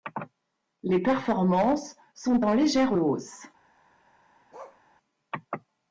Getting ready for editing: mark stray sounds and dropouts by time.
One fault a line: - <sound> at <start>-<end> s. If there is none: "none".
- bark at 4.5-4.8 s